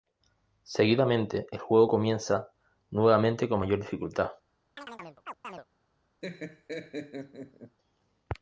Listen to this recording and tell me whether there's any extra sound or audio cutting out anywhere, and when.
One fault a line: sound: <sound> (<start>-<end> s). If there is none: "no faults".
sound: chirp (4.8-5.7 s)
sound: laugh (6.2-7.8 s)